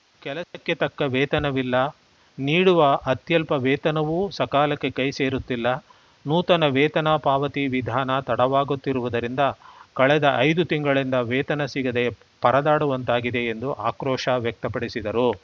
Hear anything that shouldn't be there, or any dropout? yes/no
yes